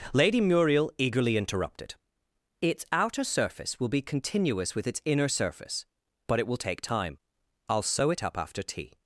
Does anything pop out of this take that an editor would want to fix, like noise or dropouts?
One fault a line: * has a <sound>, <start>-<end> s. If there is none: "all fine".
all fine